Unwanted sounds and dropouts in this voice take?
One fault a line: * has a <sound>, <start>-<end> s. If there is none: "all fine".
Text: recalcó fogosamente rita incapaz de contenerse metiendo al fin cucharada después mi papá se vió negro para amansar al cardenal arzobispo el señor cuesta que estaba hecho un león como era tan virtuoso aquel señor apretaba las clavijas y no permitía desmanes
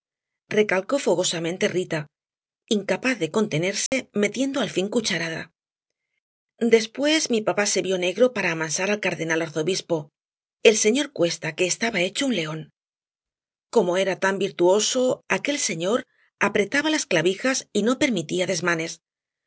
* has a dropout, 3.9-3.9 s